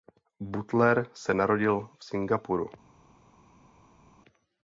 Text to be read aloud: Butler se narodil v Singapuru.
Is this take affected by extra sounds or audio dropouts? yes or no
no